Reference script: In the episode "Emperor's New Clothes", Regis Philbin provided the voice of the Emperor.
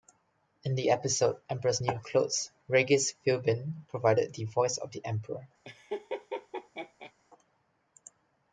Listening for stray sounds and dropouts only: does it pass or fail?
fail